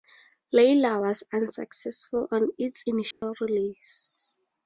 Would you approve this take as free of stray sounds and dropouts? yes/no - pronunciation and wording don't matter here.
no